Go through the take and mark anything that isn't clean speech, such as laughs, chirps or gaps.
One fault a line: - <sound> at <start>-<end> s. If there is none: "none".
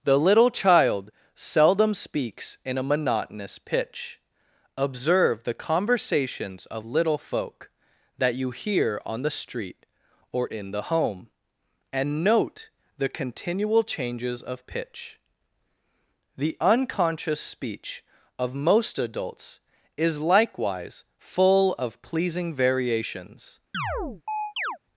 - chirp at 23.7-24.8 s